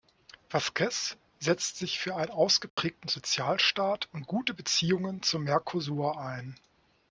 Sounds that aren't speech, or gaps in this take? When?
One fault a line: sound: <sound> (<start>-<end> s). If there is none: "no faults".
sound: dropout (2.7-2.8 s)